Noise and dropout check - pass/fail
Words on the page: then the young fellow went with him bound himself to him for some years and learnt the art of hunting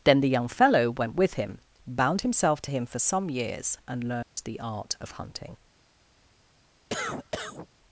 fail